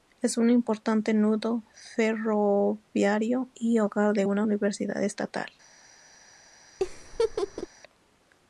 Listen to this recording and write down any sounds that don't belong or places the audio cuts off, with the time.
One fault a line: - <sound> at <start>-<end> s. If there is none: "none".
- laugh at 6.8-7.7 s